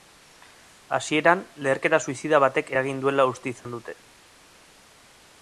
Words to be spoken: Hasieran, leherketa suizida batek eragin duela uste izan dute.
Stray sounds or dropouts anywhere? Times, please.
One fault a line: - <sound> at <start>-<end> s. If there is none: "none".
- dropout at 3.6-3.7 s